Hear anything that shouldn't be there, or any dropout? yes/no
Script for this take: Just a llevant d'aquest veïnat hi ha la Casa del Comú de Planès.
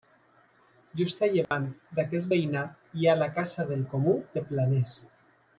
yes